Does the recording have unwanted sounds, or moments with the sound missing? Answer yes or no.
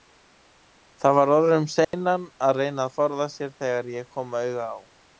yes